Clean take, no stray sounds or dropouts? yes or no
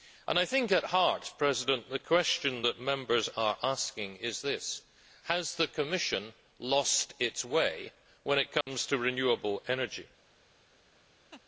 no